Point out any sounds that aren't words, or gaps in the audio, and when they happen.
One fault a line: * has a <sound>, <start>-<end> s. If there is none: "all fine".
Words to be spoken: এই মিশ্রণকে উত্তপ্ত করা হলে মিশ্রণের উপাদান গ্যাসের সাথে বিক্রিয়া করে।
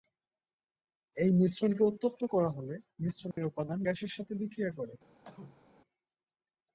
* has a dropout, 3.3-3.4 s
* has a cough, 5.2-5.6 s